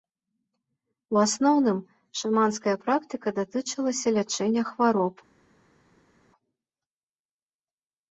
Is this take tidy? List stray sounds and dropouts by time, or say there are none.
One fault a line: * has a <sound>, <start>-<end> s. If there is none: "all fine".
all fine